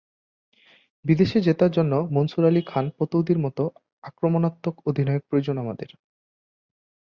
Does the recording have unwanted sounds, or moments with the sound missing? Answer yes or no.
no